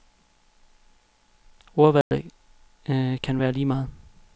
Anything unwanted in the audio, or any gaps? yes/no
yes